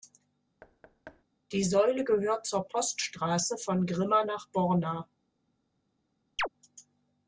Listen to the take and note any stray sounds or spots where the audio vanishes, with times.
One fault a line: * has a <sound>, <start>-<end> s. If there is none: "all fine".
* has a thud, 0.6-1.2 s
* has a chirp, 6.4-6.5 s